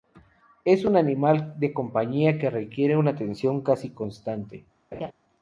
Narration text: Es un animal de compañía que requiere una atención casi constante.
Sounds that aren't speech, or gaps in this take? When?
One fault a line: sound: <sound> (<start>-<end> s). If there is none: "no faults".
sound: laugh (4.9-5.1 s)